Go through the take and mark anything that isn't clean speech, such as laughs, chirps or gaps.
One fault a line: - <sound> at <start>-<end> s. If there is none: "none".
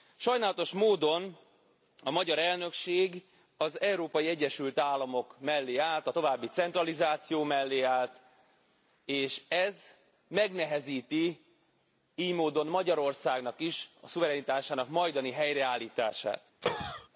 - cough at 16.6-17.1 s